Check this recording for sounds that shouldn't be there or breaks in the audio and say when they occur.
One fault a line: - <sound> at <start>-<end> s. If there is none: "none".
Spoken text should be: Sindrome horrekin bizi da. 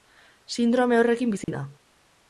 - dropout at 1.4-1.5 s